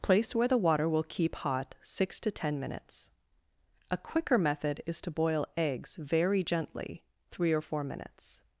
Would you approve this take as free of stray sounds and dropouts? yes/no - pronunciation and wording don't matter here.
yes